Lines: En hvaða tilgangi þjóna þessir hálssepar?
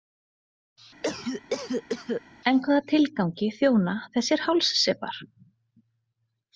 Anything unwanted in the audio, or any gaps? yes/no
yes